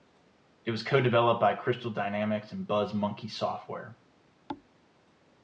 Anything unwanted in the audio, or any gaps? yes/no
yes